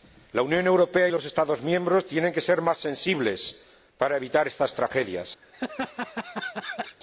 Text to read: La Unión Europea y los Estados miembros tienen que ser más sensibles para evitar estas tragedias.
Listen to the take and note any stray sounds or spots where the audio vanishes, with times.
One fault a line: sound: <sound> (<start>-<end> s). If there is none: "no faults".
sound: laugh (5.4-7.0 s)